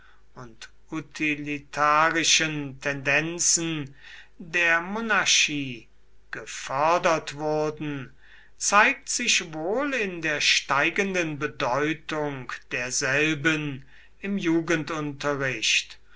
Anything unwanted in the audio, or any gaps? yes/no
no